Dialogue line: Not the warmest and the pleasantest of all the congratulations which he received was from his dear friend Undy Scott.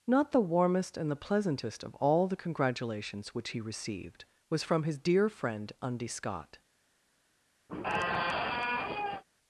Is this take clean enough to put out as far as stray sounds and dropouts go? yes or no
no